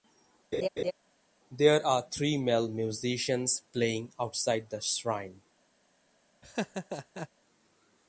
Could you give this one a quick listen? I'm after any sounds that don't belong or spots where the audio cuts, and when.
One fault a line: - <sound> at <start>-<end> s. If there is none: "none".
- laugh at 0.5-0.9 s
- laugh at 6.4-7.3 s